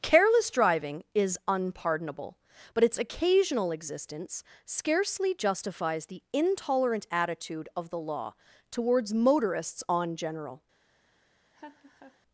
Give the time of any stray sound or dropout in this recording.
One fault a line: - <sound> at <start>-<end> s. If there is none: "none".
- laugh at 11.5-12.2 s